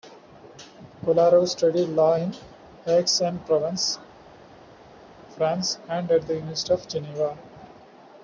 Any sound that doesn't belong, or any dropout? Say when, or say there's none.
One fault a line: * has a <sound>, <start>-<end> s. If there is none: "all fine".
all fine